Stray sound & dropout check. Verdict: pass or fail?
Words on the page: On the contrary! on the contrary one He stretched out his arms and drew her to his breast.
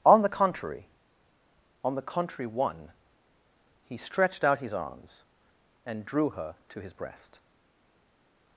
pass